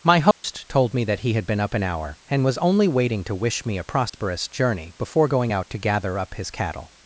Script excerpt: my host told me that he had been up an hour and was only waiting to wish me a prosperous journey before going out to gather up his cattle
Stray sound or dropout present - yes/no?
yes